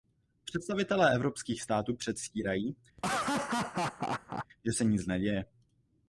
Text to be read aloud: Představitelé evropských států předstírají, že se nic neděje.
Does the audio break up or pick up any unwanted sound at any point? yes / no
yes